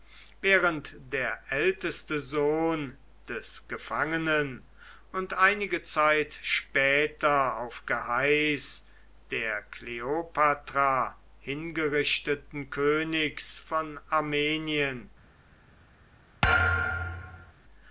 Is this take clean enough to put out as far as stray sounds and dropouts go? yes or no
no